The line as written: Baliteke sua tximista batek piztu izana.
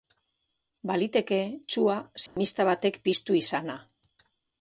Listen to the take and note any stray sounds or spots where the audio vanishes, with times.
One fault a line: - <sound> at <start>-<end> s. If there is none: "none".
- dropout at 2.3-2.4 s